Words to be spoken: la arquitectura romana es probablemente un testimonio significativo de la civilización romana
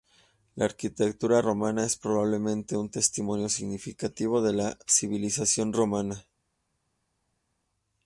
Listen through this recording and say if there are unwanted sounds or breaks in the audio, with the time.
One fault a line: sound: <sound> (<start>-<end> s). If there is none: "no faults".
no faults